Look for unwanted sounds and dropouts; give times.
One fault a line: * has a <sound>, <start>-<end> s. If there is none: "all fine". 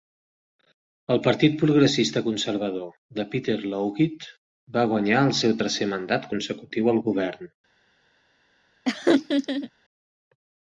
* has a laugh, 8.9-9.7 s